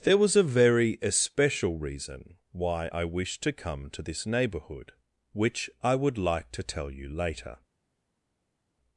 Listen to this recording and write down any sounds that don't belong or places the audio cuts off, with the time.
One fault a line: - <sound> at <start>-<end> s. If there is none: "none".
none